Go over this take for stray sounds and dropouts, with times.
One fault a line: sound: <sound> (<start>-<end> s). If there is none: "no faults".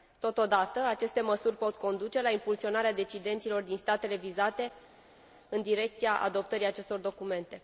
no faults